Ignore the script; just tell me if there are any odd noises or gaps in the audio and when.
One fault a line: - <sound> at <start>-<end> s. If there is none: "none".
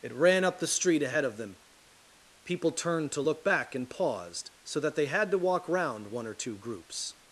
none